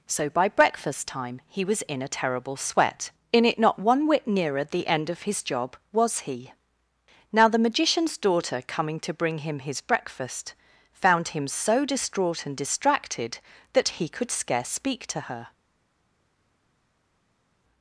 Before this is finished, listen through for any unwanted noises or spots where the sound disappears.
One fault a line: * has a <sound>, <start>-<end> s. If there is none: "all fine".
all fine